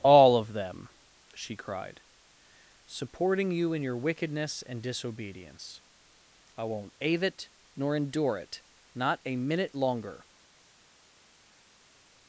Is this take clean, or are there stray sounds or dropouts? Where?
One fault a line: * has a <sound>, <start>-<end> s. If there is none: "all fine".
all fine